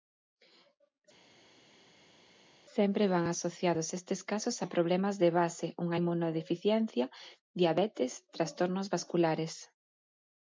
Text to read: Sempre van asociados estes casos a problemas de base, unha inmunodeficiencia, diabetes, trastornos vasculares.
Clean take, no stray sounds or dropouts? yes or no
yes